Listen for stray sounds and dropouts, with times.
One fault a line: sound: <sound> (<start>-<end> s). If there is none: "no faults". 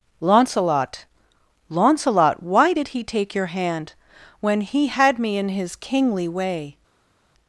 no faults